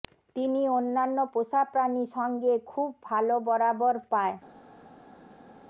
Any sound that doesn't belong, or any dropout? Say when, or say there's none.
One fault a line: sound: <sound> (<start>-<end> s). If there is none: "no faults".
no faults